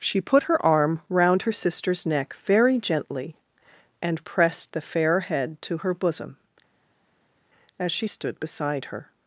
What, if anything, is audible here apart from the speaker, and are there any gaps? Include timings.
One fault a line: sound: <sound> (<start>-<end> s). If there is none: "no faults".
no faults